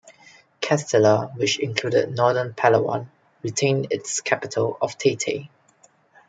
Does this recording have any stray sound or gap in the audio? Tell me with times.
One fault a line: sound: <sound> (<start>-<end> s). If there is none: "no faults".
no faults